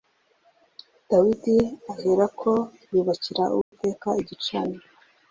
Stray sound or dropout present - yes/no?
yes